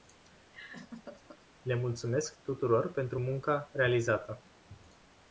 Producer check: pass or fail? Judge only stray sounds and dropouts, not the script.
fail